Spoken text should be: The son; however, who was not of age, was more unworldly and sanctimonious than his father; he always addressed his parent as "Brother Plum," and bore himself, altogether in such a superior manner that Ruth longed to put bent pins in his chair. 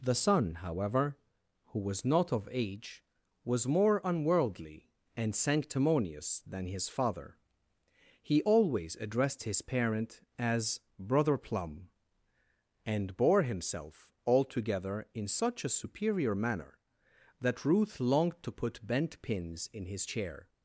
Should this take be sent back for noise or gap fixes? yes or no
no